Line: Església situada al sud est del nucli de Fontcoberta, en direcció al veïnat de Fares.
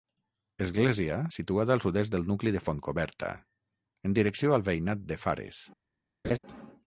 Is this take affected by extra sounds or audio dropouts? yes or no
yes